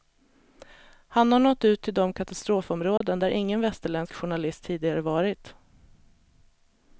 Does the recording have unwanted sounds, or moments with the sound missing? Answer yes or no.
yes